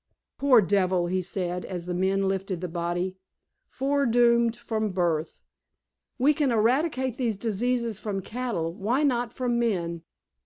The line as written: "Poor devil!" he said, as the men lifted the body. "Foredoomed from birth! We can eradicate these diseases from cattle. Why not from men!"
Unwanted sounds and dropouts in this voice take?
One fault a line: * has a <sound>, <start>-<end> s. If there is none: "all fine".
all fine